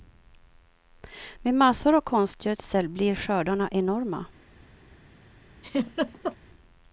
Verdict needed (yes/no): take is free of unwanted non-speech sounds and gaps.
no